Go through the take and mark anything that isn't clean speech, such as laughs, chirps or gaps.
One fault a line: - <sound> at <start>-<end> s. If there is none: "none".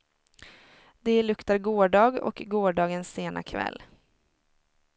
none